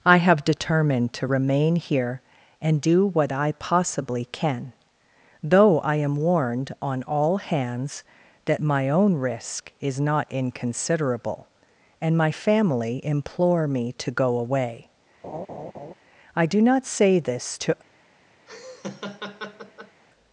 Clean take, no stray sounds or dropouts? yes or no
no